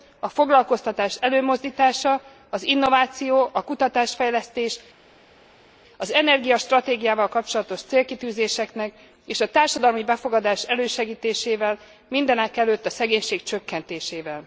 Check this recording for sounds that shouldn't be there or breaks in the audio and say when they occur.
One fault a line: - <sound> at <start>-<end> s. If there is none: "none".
none